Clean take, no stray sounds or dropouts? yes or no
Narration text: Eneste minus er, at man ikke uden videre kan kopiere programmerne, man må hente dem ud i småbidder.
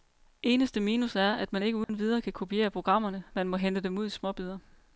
no